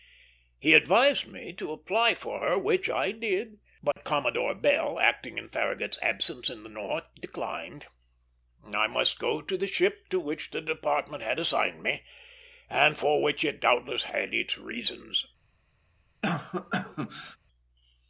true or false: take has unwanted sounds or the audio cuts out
true